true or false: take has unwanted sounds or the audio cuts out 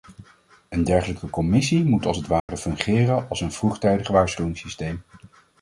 true